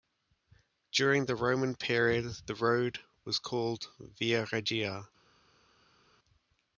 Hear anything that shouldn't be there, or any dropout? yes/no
no